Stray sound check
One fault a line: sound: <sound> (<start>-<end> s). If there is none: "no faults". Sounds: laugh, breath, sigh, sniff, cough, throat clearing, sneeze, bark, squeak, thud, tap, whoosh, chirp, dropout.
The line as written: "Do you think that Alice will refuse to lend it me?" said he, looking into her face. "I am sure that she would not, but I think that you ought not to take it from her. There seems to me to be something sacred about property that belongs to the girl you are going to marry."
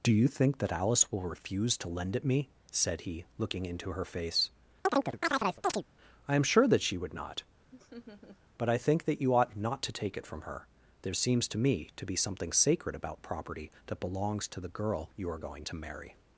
sound: chirp (4.8-5.8 s)
sound: laugh (7.7-8.4 s)